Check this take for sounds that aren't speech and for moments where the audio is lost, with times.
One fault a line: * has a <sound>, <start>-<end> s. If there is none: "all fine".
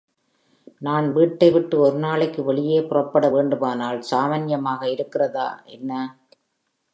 all fine